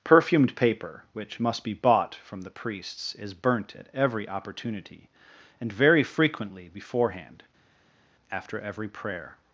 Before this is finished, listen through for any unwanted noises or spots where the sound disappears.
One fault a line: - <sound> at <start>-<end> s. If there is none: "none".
none